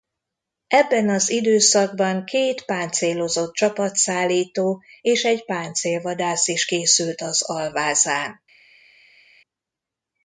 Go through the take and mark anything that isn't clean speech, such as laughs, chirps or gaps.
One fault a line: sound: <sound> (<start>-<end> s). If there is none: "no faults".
no faults